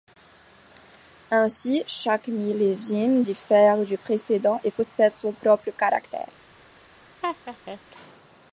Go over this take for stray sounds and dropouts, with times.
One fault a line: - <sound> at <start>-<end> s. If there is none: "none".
- laugh at 7.2-7.8 s